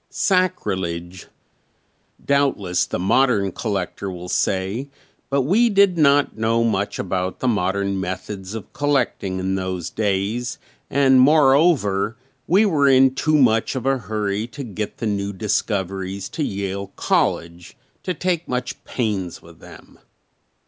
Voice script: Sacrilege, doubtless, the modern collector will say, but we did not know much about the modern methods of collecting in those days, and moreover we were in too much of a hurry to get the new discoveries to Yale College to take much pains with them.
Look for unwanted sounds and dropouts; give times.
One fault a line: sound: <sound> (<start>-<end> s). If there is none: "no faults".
no faults